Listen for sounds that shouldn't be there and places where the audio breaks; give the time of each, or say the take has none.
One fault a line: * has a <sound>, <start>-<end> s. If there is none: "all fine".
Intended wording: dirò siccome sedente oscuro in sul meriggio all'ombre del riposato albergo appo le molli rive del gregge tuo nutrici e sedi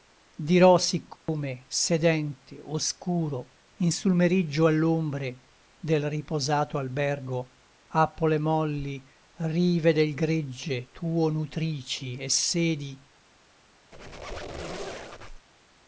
* has a dropout, 1.2-1.3 s
* has a squeak, 13.9-15.5 s